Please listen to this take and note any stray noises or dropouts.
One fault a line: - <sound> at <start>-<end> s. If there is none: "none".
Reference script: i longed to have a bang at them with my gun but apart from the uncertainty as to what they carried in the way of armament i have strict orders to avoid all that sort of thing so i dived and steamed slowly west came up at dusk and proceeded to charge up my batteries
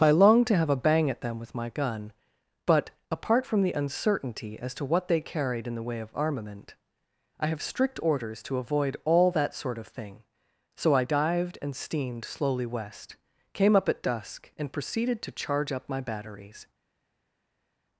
none